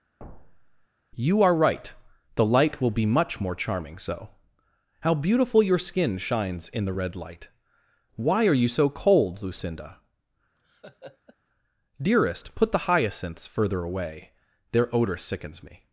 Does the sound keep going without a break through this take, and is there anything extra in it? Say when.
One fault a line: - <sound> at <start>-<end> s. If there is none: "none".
- thud at 0.2-0.9 s
- laugh at 10.6-11.4 s